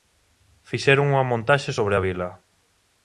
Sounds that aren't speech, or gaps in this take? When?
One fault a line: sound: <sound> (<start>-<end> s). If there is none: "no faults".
no faults